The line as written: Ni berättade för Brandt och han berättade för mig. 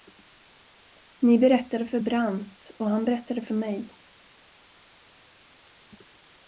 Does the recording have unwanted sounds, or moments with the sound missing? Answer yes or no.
no